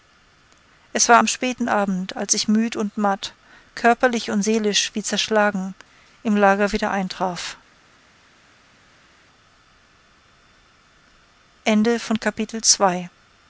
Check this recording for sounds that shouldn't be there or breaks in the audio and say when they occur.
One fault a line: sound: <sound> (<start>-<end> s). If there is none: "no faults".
no faults